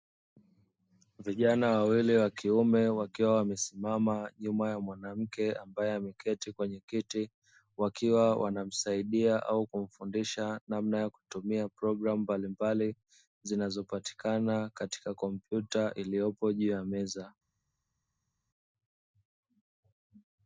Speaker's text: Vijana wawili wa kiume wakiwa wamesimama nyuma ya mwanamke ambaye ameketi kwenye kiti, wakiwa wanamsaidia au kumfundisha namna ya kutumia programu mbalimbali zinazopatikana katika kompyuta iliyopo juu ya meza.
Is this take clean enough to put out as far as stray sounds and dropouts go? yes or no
yes